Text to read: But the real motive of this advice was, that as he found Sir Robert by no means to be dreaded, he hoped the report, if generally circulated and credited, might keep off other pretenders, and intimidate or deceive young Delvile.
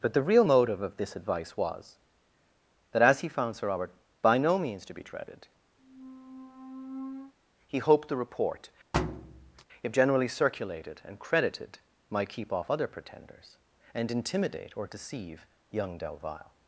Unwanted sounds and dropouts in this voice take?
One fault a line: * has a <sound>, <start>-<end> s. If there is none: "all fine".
* has a squeak, 5.8-7.3 s
* has a thud, 8.9-9.6 s